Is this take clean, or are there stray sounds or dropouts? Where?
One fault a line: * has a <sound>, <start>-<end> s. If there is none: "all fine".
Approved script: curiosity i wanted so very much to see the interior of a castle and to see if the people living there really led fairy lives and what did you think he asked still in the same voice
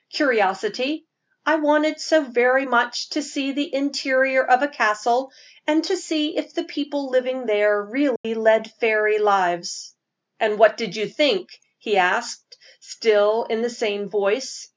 * has a dropout, 8.2-8.2 s